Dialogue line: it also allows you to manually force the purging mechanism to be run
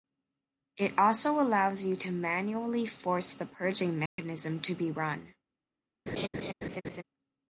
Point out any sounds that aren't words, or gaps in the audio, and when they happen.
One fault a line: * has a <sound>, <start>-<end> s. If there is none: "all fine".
* has a dropout, 4.1-4.2 s
* has a laugh, 6.1-7.0 s